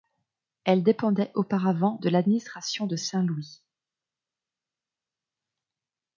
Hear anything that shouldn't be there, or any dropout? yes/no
no